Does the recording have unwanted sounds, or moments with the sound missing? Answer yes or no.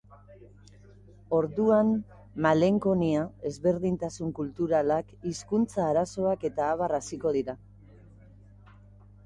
no